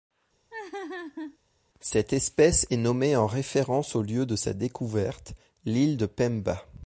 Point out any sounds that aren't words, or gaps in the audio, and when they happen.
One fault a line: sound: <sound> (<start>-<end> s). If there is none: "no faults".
sound: laugh (0.5-1.4 s)